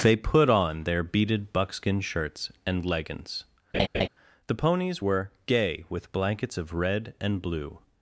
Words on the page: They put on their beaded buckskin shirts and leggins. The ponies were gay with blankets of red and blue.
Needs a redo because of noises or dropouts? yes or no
yes